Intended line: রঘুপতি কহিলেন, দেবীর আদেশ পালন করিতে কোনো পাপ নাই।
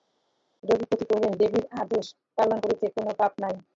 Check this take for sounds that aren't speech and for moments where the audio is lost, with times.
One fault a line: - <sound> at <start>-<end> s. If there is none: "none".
none